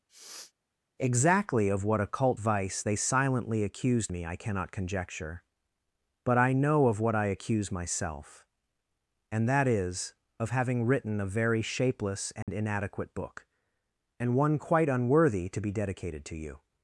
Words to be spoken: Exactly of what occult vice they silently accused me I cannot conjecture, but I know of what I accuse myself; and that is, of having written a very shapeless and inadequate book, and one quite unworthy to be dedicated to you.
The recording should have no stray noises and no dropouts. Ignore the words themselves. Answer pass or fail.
fail